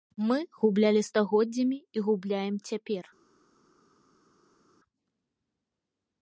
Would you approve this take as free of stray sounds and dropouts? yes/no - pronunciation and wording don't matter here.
yes